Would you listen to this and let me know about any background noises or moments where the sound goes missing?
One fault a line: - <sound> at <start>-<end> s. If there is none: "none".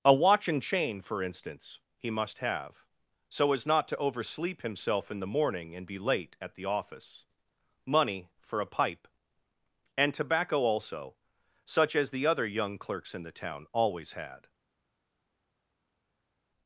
none